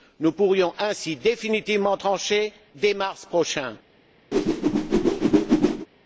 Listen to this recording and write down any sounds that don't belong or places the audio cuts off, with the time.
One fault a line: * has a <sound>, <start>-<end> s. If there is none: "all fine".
* has a whoosh, 4.3-5.9 s